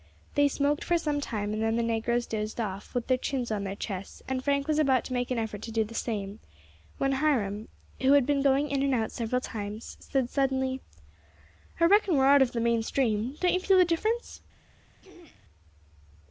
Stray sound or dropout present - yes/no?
yes